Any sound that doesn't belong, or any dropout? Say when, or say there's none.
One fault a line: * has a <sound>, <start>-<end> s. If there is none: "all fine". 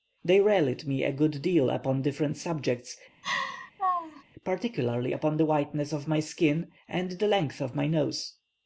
* has a laugh, 3.2-4.2 s